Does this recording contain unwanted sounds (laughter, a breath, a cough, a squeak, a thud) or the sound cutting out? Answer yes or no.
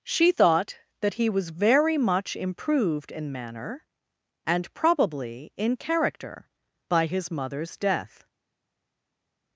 no